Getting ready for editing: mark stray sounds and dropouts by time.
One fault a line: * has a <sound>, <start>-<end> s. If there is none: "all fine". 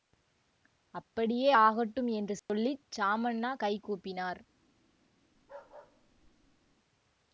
* has a dropout, 2.4-2.5 s
* has a bark, 5.3-6.8 s